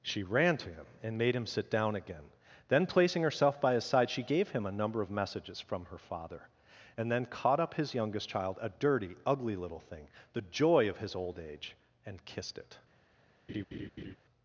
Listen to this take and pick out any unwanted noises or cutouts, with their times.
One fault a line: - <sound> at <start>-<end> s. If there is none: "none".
- laugh at 13.5-14.2 s